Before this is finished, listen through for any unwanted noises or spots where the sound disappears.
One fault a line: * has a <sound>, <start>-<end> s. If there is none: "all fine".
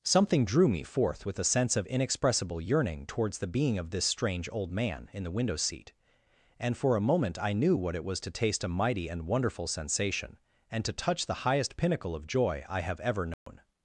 * has a dropout, 13.3-13.5 s